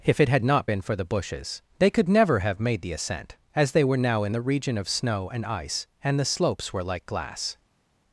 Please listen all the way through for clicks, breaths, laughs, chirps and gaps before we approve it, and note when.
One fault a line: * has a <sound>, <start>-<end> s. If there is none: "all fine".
all fine